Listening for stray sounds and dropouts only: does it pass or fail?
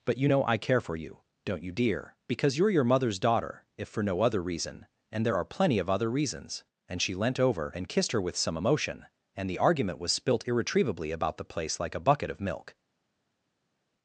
pass